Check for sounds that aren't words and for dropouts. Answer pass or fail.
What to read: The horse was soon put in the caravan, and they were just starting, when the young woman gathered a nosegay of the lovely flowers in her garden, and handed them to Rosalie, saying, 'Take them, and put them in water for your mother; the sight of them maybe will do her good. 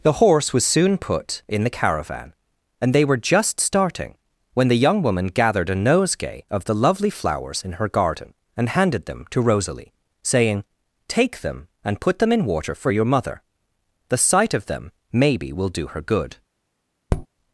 fail